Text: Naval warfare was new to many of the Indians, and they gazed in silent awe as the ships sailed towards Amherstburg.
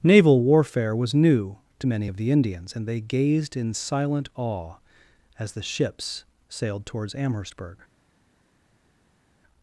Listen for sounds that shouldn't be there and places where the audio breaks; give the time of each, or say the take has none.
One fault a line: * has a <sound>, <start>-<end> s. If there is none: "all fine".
all fine